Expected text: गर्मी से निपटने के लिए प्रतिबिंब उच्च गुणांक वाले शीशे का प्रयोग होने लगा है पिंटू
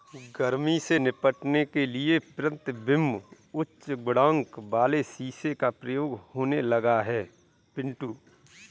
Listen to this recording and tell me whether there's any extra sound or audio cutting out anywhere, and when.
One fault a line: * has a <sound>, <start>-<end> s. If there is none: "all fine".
all fine